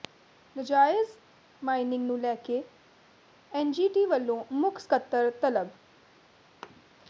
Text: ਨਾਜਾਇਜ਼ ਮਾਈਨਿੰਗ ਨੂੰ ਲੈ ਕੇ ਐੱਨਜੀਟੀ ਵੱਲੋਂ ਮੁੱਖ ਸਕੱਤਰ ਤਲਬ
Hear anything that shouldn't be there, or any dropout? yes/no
yes